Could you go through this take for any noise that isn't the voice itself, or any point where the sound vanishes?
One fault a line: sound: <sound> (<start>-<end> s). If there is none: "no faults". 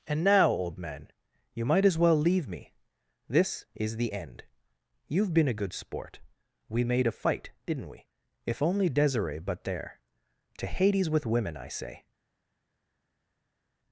no faults